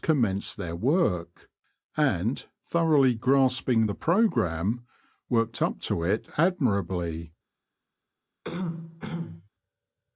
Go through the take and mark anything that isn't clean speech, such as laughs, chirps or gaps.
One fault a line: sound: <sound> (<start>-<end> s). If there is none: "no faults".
sound: throat clearing (8.4-9.5 s)